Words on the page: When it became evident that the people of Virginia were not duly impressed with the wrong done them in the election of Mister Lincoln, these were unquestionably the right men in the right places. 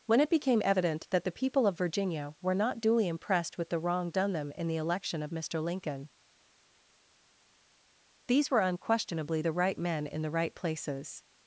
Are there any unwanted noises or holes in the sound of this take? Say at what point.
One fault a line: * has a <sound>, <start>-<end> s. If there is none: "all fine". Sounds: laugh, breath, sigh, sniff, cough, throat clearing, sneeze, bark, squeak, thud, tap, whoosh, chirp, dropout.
all fine